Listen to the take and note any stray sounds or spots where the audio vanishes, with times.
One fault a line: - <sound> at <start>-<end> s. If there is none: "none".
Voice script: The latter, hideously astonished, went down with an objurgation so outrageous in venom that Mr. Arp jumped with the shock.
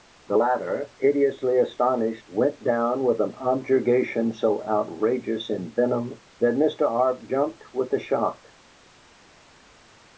none